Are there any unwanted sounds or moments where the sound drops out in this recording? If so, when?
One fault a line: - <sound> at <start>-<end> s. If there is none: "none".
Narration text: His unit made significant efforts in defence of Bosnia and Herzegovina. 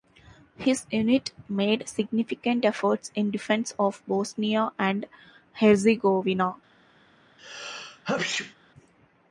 - sneeze at 7.4-8.6 s